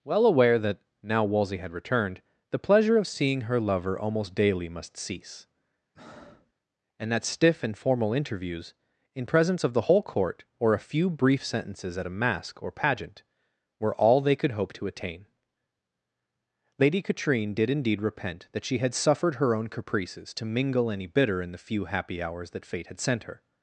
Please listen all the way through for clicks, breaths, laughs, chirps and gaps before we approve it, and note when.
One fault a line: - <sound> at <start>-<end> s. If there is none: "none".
- breath at 5.9-6.5 s